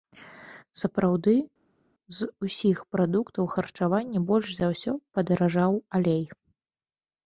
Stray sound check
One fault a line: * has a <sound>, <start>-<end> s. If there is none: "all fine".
all fine